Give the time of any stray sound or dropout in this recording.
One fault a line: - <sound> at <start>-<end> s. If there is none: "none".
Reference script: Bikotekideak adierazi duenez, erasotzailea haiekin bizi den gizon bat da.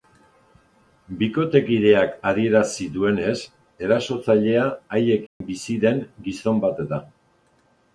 - dropout at 5.3-5.4 s